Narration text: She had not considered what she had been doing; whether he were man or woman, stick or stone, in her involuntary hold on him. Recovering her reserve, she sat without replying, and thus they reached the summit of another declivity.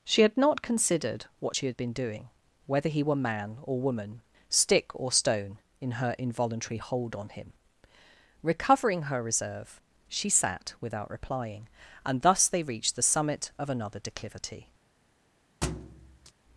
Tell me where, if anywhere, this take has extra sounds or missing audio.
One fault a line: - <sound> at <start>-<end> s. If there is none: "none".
- thud at 15.6-16.3 s